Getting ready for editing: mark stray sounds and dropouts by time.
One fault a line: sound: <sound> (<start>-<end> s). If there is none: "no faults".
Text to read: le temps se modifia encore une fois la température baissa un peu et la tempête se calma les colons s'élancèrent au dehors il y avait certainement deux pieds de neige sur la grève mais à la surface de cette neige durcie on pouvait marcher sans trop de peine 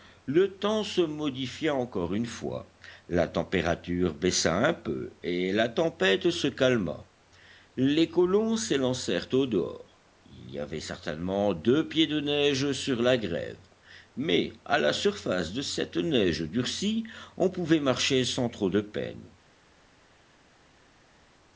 no faults